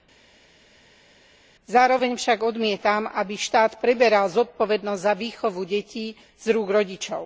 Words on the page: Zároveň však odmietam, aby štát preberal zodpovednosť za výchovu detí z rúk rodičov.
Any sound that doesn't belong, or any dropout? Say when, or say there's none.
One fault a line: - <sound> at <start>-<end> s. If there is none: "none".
none